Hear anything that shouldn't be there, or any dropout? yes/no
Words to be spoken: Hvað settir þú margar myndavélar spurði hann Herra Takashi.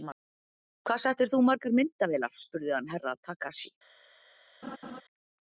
yes